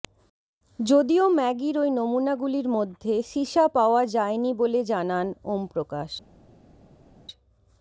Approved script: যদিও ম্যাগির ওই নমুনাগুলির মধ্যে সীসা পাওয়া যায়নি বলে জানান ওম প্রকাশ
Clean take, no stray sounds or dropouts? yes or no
yes